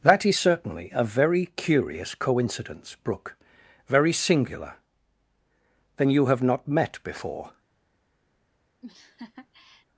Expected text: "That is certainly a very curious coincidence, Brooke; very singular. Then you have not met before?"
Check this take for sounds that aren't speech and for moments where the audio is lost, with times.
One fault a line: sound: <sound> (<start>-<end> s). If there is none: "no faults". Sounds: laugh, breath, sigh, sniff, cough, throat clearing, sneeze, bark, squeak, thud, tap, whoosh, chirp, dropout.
sound: laugh (8.8-9.9 s)